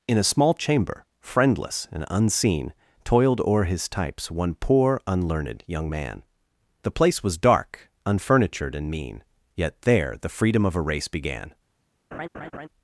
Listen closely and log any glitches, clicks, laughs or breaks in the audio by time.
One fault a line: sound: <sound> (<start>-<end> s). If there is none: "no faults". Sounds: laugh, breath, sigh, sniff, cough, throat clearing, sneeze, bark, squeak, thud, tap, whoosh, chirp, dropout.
sound: laugh (12.1-12.7 s)